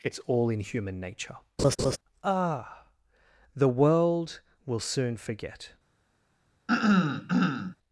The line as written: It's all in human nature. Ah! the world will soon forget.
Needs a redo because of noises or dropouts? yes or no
yes